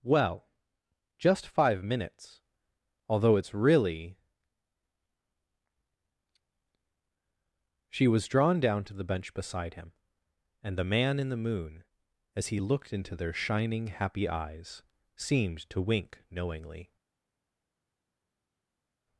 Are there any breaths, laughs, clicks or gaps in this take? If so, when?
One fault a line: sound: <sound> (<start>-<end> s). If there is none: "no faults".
no faults